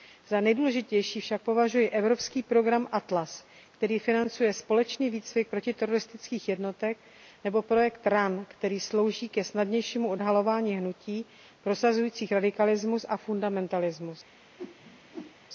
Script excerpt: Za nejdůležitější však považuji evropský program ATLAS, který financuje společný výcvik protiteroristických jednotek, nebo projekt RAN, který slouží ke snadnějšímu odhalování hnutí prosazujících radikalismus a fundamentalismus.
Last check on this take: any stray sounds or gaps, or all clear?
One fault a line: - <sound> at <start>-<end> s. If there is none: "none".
- whoosh at 14.6-15.4 s